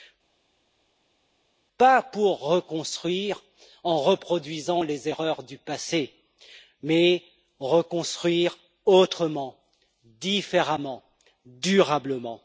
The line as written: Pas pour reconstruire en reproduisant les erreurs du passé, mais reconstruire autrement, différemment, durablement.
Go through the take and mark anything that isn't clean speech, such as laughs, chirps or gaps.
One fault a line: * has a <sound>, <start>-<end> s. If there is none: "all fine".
all fine